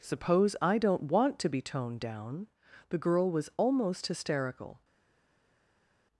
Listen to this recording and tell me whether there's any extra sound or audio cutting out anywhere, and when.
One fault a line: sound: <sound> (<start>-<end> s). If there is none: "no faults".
no faults